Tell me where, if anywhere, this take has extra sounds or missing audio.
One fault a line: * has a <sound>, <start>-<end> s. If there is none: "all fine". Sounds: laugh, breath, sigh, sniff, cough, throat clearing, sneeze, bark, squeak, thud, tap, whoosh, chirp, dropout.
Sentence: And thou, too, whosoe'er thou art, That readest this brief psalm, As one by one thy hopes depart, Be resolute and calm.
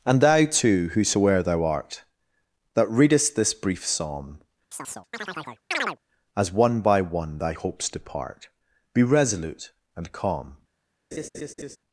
* has a chirp, 4.7-6.0 s
* has a laugh, 11.1-11.8 s